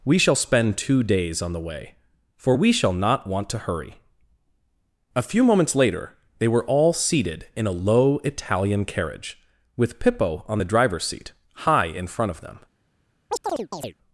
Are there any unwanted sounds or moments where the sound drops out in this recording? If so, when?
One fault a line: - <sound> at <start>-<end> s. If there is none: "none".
- chirp at 13.3-13.9 s